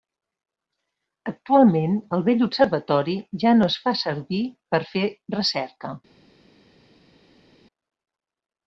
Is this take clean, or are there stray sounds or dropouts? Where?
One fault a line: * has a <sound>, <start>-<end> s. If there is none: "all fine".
all fine